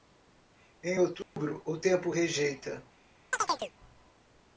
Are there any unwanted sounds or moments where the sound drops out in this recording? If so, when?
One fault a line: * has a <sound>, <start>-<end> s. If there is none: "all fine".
* has a dropout, 1.2-1.4 s
* has a chirp, 3.3-3.7 s